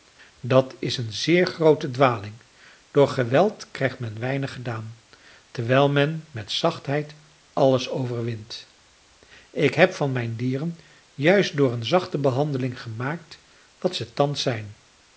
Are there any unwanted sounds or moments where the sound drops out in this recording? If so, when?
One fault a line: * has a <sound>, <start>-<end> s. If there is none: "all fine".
all fine